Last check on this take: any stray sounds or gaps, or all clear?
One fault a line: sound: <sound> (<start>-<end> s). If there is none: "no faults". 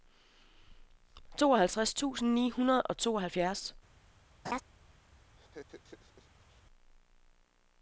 sound: laugh (4.4-4.6 s)
sound: laugh (5.4-6.6 s)